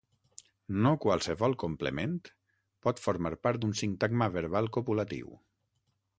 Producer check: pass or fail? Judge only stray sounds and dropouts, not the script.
pass